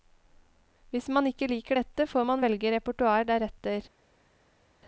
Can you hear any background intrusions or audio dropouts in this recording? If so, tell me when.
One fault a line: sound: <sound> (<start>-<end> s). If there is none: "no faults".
no faults